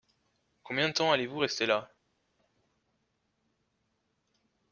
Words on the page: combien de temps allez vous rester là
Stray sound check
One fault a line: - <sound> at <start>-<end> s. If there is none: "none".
none